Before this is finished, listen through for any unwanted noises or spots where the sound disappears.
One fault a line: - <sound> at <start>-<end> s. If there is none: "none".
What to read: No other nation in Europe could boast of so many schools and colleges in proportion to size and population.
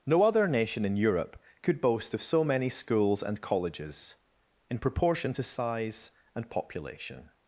none